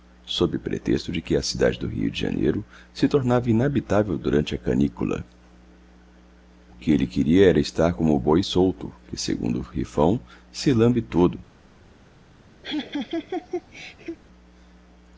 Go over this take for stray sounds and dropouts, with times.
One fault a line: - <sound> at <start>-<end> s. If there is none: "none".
- laugh at 12.6-14.2 s